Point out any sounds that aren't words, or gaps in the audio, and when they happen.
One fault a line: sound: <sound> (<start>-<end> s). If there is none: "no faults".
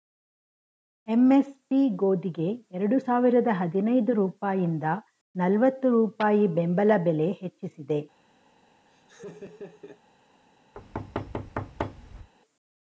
sound: laugh (8.9-10.0 s)
sound: thud (10.7-12.3 s)